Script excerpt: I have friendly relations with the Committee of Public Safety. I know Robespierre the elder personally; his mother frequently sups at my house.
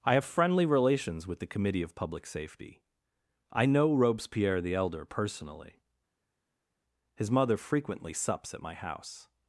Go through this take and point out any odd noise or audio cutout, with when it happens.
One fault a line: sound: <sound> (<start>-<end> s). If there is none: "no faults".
no faults